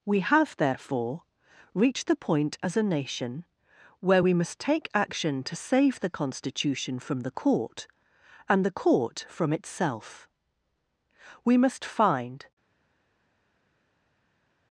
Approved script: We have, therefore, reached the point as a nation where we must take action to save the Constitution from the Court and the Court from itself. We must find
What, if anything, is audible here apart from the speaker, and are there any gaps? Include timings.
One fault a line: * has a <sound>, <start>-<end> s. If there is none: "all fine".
all fine